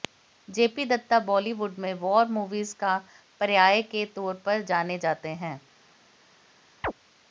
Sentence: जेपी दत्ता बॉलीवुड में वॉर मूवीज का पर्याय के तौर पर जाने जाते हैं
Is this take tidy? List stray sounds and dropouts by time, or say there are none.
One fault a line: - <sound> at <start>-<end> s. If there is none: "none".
- chirp at 6.8-6.9 s